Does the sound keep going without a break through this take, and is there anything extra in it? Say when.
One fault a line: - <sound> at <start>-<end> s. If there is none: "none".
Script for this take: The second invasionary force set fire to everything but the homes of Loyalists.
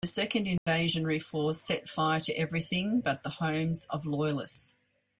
- dropout at 0.6-0.7 s